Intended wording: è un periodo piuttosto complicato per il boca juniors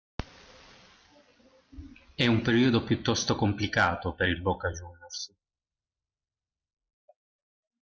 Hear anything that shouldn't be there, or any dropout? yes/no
no